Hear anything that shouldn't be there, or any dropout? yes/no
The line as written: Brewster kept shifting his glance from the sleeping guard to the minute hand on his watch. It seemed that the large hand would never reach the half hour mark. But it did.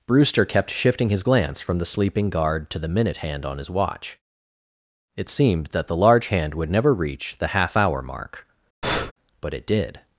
yes